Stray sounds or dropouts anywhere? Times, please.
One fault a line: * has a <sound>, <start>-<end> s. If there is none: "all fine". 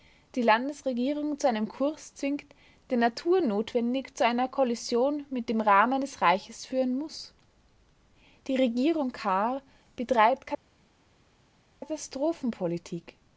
all fine